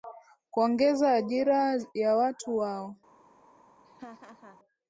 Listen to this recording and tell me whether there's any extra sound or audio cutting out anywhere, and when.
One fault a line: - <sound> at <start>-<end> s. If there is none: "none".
- laugh at 3.8-4.6 s